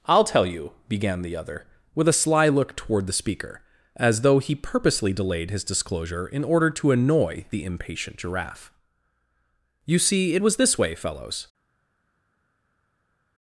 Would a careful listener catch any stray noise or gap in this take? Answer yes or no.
no